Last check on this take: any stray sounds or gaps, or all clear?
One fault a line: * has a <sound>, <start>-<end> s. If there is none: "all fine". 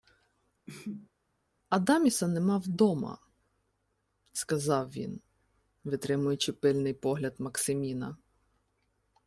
* has a sneeze, 0.7-1.1 s